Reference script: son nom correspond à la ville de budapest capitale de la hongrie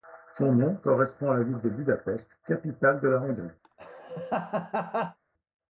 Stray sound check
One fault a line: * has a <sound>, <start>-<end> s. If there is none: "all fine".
* has a laugh, 3.6-5.2 s